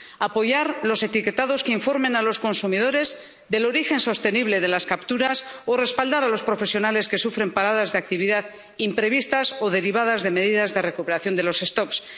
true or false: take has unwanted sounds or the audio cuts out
false